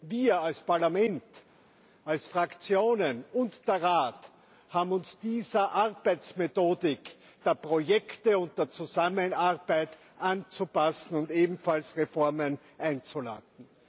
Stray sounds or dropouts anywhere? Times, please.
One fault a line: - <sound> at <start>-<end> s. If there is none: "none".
none